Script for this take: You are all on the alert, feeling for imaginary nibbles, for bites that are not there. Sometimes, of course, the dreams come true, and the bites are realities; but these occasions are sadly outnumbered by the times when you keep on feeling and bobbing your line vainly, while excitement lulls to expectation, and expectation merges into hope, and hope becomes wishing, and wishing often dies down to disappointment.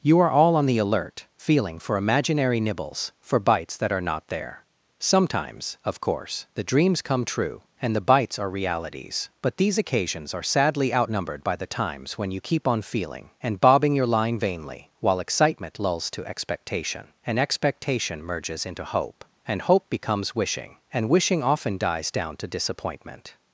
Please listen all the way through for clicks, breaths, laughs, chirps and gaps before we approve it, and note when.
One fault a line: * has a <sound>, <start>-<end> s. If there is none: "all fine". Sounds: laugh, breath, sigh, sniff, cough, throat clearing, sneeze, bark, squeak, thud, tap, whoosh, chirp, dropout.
all fine